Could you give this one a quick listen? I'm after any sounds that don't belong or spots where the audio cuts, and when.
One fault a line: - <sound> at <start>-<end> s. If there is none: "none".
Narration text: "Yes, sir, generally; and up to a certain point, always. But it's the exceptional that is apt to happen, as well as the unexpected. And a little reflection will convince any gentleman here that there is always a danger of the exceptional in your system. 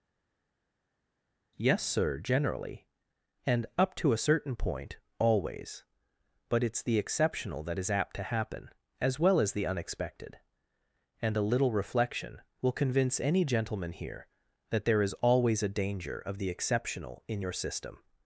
none